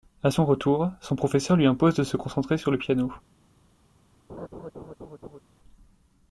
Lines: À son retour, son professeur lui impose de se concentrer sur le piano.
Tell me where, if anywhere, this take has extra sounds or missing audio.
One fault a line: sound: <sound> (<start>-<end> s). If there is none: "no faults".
sound: laugh (4.3-5.4 s)